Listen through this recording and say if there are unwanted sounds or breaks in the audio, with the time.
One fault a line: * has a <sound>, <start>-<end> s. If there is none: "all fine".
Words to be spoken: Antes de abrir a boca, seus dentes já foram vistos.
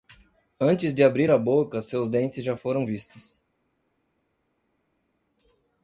all fine